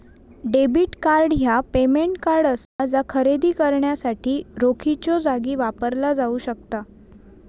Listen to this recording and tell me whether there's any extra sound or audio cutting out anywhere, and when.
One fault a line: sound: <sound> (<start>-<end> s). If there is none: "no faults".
sound: dropout (2.6-2.8 s)